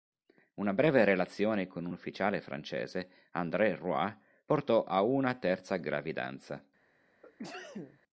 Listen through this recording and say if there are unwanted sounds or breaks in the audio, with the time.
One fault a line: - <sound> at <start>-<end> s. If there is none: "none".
- sneeze at 7.2-8.0 s